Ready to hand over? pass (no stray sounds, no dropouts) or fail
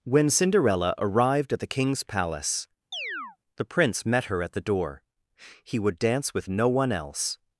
fail